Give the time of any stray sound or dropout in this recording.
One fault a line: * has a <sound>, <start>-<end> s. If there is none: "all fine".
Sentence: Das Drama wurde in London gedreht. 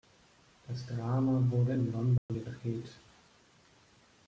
* has a dropout, 2.2-2.3 s